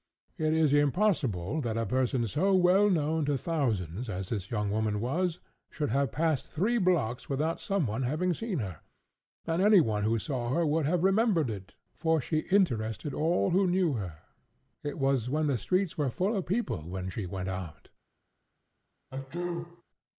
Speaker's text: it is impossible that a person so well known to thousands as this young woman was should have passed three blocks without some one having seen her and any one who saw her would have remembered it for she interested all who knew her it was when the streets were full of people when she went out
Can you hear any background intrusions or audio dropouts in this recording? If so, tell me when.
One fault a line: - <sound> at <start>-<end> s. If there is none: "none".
- sneeze at 19.1-19.8 s